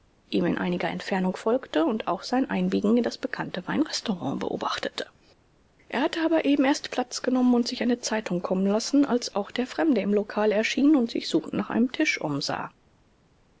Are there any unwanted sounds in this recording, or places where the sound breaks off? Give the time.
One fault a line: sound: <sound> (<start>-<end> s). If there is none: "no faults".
no faults